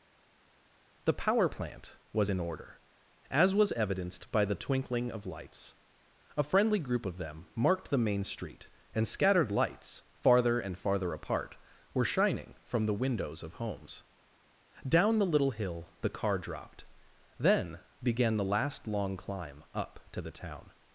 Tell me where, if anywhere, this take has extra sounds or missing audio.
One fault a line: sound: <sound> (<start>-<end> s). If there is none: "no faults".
no faults